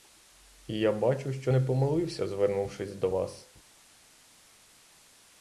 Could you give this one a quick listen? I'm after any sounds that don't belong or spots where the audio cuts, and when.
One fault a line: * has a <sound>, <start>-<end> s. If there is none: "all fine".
all fine